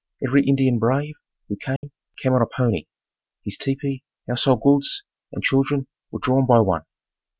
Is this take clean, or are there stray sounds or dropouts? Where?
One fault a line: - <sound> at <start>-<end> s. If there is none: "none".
- dropout at 1.8-1.8 s